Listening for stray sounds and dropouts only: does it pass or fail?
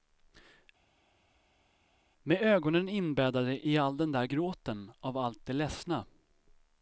pass